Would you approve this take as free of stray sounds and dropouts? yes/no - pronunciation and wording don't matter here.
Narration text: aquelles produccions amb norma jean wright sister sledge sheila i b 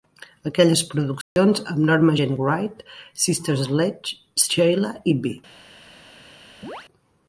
no